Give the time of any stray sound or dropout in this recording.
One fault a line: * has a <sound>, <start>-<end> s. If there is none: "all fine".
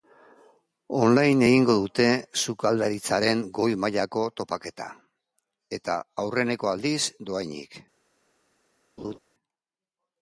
* has a laugh, 9.0-9.2 s